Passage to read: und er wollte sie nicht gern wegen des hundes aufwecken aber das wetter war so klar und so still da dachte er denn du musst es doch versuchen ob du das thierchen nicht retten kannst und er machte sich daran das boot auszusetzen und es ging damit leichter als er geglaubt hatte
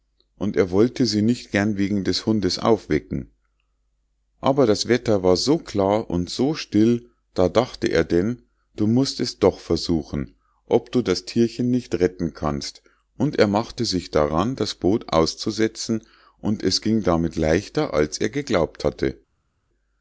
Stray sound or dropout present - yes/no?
no